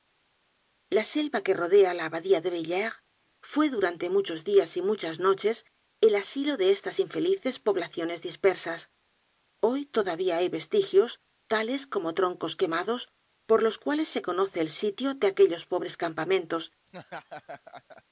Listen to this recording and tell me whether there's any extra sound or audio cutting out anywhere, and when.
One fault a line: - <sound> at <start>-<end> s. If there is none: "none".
- laugh at 16.9-18.0 s